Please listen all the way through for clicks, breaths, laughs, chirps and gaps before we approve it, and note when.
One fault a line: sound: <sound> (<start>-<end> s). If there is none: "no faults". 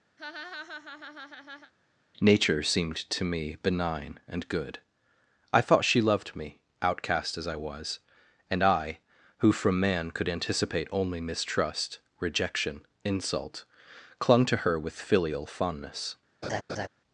sound: laugh (0.2-1.7 s)
sound: laugh (16.4-16.9 s)